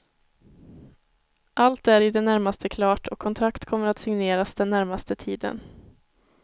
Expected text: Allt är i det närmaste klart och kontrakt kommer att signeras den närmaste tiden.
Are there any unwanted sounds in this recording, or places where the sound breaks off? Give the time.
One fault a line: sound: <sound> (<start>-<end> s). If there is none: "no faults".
no faults